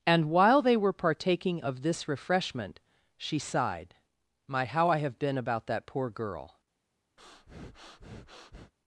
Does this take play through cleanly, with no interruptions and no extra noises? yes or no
no